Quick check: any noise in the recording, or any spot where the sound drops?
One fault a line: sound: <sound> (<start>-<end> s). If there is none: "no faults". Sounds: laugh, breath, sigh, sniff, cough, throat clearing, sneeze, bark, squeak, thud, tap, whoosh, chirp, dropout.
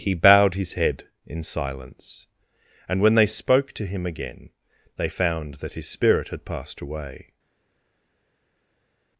no faults